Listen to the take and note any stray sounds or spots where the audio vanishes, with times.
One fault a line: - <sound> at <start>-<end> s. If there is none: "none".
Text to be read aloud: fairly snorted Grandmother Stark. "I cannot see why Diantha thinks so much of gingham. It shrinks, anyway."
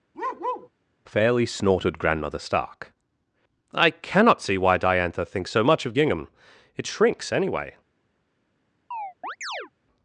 - bark at 0.1-0.7 s
- chirp at 8.9-9.7 s